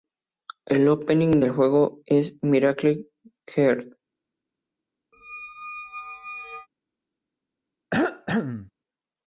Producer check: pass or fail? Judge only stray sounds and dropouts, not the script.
fail